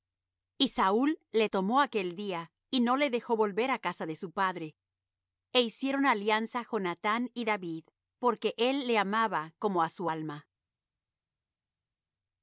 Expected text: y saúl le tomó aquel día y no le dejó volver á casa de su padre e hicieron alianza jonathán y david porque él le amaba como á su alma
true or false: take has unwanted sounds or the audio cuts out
false